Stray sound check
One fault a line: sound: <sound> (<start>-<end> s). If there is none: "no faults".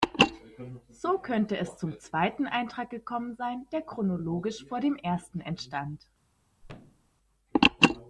sound: thud (6.6-7.1 s)